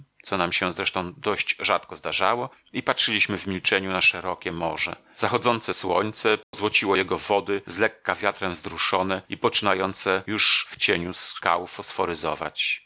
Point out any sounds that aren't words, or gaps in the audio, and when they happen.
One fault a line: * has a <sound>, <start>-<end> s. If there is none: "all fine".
* has a dropout, 6.4-6.5 s